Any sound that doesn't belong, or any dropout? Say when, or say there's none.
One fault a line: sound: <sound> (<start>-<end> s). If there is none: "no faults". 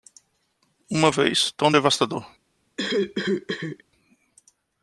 sound: cough (2.8-3.8 s)